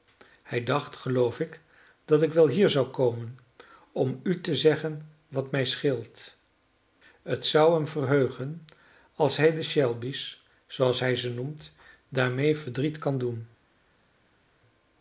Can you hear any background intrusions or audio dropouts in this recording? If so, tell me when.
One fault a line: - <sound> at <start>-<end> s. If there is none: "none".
none